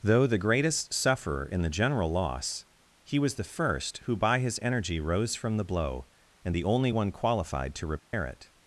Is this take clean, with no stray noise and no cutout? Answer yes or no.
no